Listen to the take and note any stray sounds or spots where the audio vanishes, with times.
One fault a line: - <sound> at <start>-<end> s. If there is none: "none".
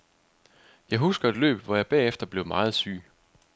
none